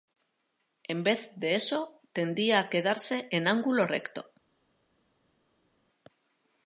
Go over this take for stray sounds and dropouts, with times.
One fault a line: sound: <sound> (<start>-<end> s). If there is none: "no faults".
no faults